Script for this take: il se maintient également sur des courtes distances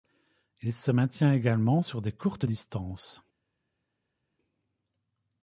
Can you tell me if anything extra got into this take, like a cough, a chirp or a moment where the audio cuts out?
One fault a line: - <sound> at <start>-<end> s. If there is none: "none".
none